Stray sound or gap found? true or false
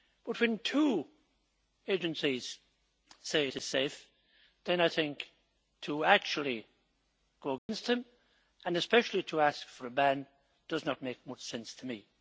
true